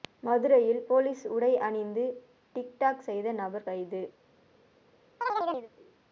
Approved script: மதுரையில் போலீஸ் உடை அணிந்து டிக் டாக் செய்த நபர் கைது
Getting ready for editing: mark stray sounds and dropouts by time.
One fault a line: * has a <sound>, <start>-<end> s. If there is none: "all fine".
* has a chirp, 5.2-5.7 s